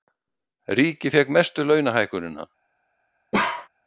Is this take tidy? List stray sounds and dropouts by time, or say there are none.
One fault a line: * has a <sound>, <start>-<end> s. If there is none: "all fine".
* has a bark, 3.3-3.7 s